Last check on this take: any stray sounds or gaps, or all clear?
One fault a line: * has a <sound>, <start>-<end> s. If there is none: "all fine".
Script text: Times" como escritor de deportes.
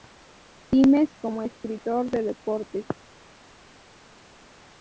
all fine